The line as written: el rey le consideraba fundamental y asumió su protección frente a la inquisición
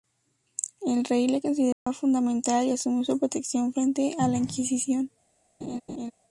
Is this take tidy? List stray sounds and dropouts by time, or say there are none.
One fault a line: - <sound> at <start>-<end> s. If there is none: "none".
- dropout at 1.7-1.9 s
- laugh at 5.6-6.1 s